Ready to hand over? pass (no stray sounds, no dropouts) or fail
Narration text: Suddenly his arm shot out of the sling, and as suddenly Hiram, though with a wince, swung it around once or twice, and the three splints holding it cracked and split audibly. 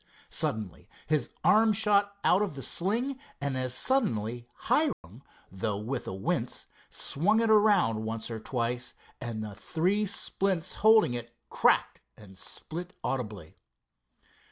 fail